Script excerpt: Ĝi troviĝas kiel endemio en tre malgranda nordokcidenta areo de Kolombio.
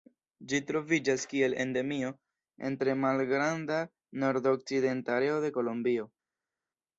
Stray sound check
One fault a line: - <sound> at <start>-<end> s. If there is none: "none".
none